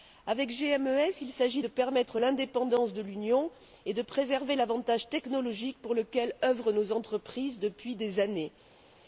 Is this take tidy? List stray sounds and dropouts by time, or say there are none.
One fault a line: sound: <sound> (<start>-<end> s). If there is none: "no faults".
no faults